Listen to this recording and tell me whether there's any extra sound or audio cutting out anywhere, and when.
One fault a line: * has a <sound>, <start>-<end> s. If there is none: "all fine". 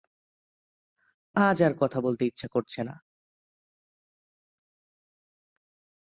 all fine